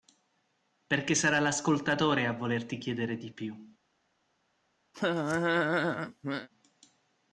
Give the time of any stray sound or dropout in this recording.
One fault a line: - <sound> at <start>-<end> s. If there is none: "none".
- laugh at 4.9-6.5 s